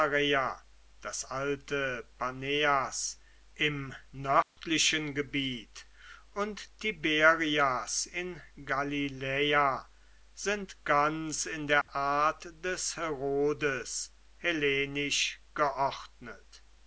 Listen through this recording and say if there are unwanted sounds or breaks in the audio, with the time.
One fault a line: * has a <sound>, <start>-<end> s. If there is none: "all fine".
* has a dropout, 4.4-4.6 s
* has a dropout, 11.8-11.9 s